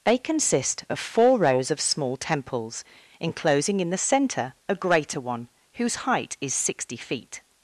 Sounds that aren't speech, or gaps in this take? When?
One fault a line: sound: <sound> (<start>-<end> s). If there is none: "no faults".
no faults